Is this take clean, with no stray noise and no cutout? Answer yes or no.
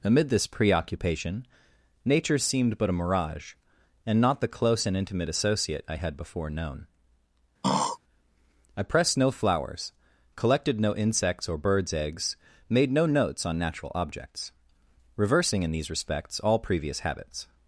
no